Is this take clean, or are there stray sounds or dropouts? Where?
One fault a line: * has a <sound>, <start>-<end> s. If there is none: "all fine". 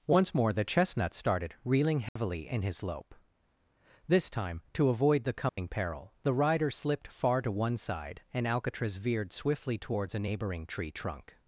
* has a dropout, 2.1-2.2 s
* has a dropout, 5.5-5.6 s